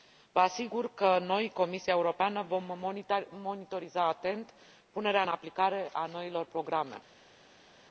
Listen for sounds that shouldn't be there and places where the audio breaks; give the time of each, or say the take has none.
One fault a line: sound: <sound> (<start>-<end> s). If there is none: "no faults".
no faults